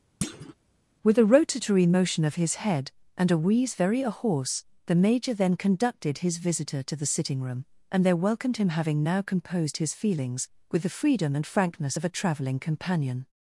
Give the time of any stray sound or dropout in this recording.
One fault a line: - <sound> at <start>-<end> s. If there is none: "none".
- thud at 0.2-0.5 s